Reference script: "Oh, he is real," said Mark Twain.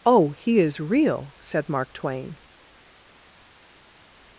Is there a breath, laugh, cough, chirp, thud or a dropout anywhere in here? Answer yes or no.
no